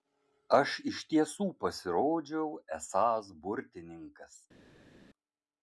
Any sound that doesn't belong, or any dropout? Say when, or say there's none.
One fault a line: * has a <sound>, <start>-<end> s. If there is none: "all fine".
all fine